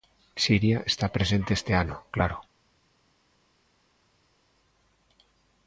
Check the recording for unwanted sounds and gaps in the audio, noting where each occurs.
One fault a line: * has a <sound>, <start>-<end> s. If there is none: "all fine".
all fine